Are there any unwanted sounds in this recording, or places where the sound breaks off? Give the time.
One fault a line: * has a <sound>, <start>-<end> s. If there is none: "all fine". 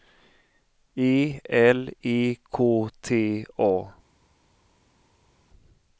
all fine